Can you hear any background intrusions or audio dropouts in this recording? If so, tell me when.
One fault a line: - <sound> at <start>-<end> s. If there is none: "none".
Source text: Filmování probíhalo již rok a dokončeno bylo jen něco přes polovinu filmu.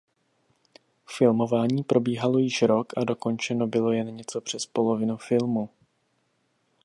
none